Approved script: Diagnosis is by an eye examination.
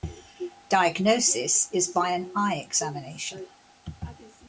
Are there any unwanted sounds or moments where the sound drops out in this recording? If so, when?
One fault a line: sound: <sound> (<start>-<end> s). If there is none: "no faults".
no faults